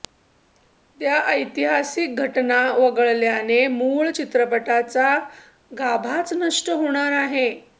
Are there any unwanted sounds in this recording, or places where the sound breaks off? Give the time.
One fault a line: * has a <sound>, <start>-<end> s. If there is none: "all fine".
all fine